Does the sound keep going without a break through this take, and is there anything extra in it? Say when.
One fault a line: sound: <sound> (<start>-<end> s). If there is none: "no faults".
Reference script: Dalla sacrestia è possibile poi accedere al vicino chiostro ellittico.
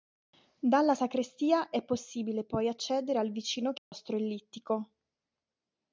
sound: dropout (3.8-3.9 s)